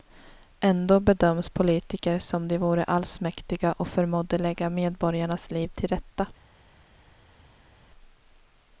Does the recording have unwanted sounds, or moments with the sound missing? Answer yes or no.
no